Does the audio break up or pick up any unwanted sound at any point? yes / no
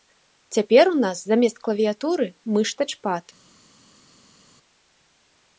no